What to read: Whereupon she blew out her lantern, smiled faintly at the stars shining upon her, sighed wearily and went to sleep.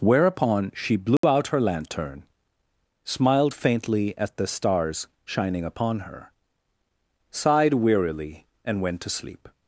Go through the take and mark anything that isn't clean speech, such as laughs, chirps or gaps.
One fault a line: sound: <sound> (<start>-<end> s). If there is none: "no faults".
sound: dropout (1.2-1.2 s)